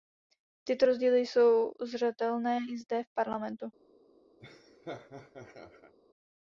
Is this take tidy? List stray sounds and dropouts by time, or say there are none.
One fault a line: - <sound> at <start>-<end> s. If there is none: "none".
- laugh at 4.4-5.9 s